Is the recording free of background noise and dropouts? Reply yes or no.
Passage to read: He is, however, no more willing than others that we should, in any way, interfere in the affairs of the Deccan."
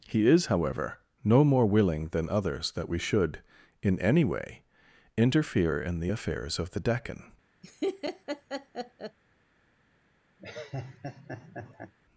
no